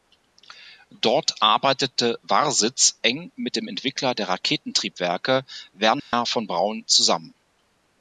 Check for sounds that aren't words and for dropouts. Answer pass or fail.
fail